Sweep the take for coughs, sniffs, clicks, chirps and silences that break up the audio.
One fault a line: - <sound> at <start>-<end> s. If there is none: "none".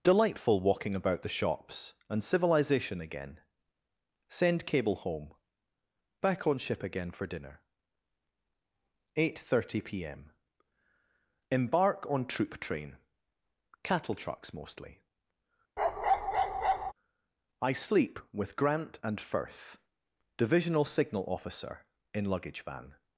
- bark at 15.8-16.9 s